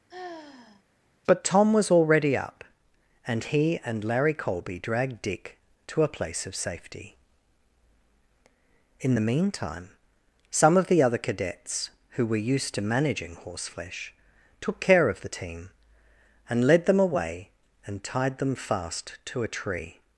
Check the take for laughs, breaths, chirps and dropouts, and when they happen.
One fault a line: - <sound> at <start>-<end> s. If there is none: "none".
- sigh at 0.1-0.8 s